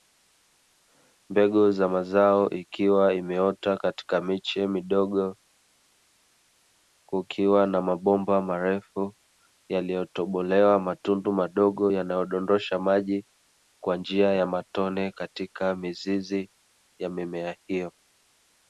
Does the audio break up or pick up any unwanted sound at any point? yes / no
no